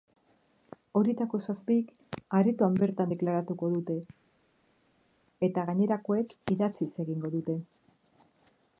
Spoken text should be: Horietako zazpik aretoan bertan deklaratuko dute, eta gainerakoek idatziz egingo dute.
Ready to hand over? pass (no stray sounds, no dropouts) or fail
pass